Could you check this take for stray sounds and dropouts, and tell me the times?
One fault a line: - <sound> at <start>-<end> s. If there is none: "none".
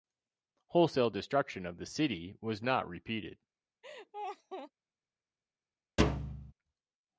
- laugh at 3.8-4.7 s
- thud at 6.0-6.5 s